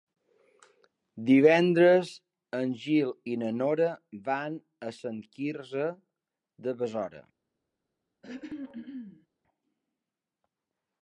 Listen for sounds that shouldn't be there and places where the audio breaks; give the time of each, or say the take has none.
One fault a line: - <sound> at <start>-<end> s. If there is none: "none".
- throat clearing at 8.2-9.3 s